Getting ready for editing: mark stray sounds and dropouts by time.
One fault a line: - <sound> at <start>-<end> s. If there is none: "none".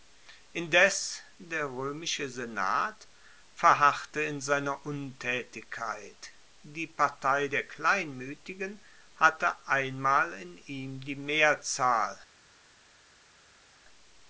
none